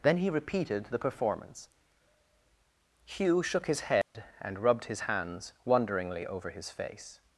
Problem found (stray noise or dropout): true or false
true